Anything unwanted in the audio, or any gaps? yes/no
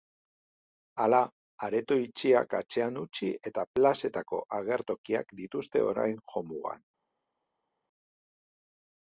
no